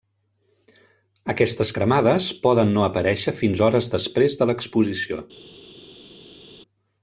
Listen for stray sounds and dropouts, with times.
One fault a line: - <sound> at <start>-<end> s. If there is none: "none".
none